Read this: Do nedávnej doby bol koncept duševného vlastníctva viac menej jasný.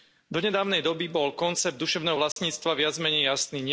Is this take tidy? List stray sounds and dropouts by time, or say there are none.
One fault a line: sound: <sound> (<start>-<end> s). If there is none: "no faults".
sound: dropout (2.3-2.4 s)